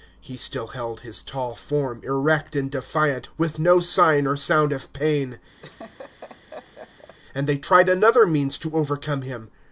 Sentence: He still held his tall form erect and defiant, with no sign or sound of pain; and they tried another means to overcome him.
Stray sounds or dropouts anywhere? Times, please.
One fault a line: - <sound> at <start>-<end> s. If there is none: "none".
- laugh at 5.6-7.2 s